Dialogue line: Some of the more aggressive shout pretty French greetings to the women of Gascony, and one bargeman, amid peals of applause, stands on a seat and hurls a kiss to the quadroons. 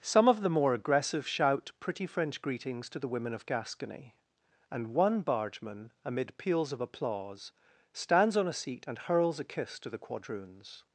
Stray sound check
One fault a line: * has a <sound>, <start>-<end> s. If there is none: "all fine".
all fine